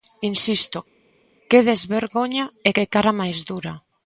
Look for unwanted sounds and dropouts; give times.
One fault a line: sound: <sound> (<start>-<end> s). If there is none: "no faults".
no faults